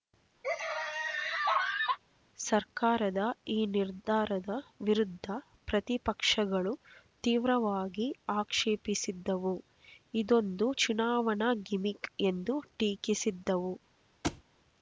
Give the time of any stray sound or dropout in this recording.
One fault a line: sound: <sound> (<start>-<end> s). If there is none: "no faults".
sound: laugh (0.4-2.0 s)
sound: thud (14.2-14.4 s)